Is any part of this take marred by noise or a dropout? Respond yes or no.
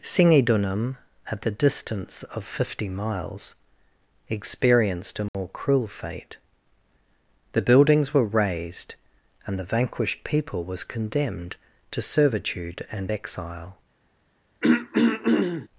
yes